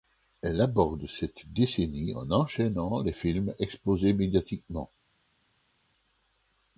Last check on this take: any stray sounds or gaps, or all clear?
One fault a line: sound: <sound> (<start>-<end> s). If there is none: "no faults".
no faults